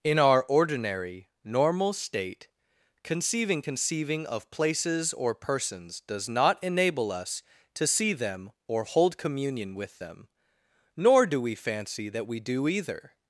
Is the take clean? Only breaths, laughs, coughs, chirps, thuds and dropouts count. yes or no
yes